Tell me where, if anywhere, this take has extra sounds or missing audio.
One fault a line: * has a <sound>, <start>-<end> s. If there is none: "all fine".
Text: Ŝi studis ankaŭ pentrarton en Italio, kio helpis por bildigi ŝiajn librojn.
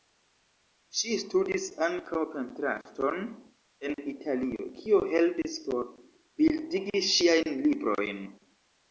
all fine